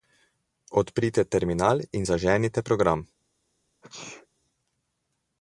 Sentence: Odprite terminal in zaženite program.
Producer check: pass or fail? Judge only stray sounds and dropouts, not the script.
fail